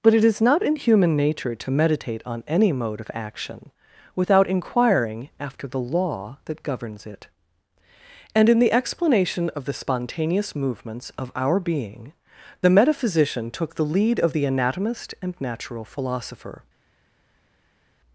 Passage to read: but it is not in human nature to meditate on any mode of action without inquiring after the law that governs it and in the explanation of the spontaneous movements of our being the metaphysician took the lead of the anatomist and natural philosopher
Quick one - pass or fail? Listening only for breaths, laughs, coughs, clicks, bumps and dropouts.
pass